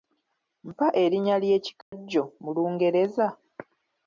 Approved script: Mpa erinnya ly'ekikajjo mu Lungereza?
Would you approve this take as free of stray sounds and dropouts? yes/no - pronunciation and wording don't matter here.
no